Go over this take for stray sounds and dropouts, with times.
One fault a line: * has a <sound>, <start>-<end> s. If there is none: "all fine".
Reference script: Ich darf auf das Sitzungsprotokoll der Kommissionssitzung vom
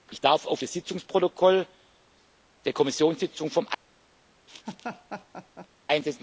* has a laugh, 4.5-5.7 s